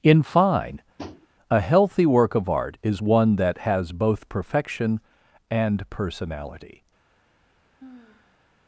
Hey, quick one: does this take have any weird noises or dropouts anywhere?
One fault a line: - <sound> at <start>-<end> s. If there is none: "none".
- tap at 1.0-1.3 s
- sigh at 7.8-8.5 s